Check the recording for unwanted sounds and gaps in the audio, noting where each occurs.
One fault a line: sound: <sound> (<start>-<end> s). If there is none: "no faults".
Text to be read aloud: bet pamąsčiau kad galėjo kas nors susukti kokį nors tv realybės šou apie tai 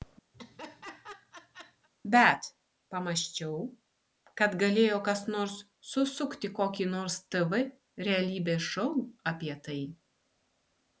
sound: laugh (0.3-1.9 s)